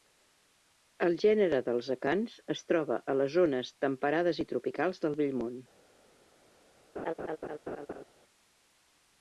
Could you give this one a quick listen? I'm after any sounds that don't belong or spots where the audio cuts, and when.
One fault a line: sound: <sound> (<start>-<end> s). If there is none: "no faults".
sound: laugh (7.0-8.0 s)